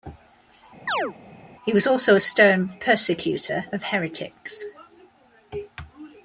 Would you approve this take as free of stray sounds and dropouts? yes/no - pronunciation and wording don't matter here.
no